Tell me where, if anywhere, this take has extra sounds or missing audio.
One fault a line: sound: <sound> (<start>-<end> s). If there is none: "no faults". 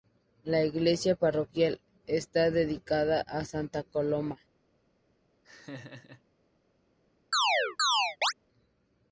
sound: laugh (5.4-6.2 s)
sound: chirp (7.3-8.3 s)